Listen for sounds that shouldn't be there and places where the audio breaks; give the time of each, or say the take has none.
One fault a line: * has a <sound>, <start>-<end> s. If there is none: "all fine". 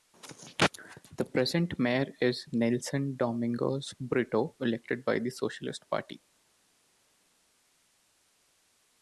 all fine